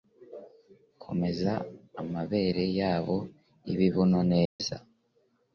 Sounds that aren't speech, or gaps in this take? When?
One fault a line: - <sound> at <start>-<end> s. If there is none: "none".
- dropout at 4.5-4.6 s